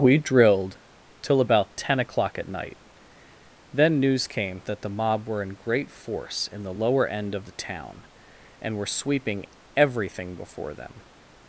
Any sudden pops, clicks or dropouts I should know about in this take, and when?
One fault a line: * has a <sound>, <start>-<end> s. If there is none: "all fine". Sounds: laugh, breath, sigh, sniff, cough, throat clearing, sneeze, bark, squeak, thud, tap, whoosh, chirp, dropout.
all fine